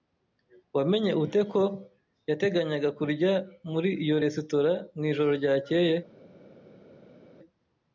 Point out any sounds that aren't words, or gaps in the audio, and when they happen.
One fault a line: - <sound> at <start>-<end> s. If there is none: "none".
none